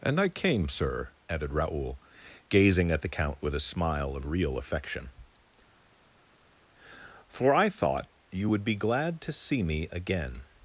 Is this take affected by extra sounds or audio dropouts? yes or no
no